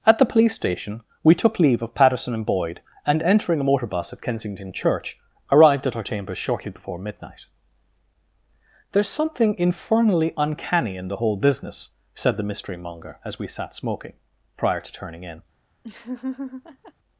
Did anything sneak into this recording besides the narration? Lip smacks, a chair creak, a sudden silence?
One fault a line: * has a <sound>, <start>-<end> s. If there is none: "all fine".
* has a laugh, 15.8-16.9 s